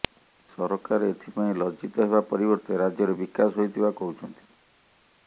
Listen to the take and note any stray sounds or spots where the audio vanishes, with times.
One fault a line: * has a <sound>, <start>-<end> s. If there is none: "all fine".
all fine